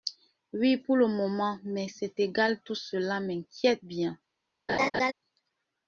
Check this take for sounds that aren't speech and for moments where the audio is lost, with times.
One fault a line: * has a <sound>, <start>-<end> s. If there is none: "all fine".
* has a laugh, 4.7-5.1 s